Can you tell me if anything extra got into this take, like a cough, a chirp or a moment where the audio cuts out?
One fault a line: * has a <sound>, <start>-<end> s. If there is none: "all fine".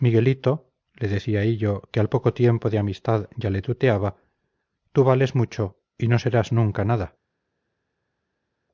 all fine